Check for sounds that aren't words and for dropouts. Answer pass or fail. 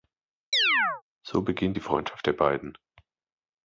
fail